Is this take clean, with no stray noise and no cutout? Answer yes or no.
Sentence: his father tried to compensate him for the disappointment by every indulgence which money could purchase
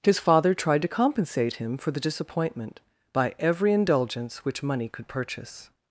yes